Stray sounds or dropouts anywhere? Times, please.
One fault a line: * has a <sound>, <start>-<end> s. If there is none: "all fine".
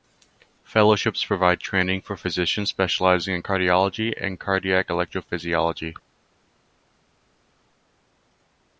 all fine